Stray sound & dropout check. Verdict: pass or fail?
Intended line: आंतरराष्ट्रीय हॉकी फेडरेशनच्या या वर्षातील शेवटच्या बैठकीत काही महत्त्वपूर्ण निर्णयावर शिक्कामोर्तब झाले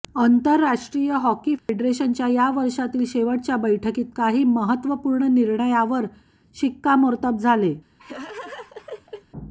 fail